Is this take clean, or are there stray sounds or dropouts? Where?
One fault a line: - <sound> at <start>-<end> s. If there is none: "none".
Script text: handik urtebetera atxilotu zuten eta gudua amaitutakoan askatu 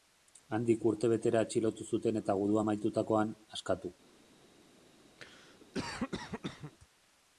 - cough at 5.2-6.7 s